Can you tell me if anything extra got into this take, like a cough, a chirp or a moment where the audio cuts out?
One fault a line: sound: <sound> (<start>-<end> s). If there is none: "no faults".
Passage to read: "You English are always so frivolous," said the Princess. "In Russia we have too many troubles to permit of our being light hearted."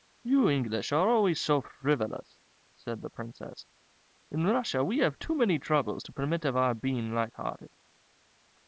no faults